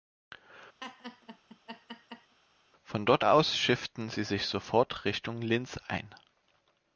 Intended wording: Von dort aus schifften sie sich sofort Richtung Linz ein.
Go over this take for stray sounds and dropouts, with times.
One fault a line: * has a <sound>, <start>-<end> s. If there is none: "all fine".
* has a laugh, 0.8-2.4 s